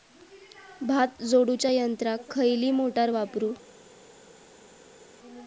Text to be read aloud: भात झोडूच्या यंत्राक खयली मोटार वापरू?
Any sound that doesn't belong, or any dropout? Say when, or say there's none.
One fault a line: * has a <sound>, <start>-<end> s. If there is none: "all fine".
all fine